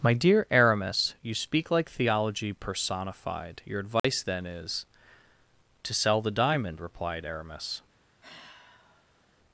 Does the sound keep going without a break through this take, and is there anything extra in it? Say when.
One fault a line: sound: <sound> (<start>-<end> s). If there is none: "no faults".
sound: dropout (4.0-4.0 s)
sound: sigh (8.2-9.3 s)